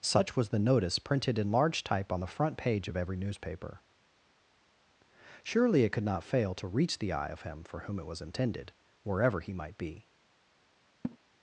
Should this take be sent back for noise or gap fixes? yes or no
yes